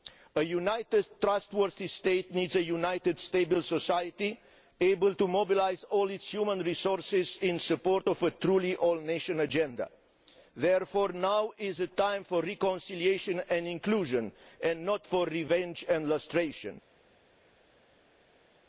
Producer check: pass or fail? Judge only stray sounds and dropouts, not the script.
pass